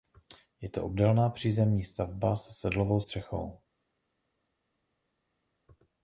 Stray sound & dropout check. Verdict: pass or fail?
pass